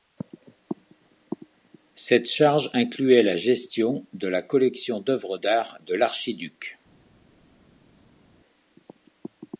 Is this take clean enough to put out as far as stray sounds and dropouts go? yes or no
yes